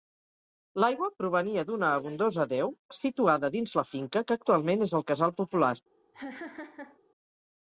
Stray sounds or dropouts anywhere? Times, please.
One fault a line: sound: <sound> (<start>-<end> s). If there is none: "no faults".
sound: laugh (6.1-7.0 s)